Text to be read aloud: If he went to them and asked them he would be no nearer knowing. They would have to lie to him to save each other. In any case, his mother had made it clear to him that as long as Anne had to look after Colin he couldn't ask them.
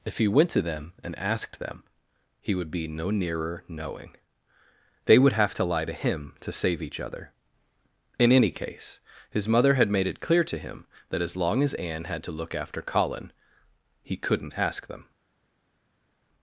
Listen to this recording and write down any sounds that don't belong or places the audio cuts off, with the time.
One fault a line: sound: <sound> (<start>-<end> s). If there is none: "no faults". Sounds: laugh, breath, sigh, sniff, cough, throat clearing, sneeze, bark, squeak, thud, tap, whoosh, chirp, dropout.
no faults